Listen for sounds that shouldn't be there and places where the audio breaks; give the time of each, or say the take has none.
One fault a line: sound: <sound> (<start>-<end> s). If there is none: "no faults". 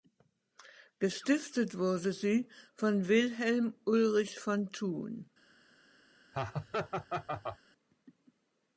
sound: laugh (6.3-7.6 s)